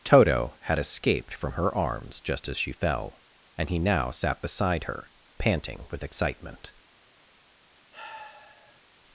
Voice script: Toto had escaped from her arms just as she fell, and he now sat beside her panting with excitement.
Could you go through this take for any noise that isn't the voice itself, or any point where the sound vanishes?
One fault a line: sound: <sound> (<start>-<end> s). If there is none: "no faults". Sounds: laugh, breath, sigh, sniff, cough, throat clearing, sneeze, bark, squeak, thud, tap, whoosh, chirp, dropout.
sound: sigh (7.9-8.8 s)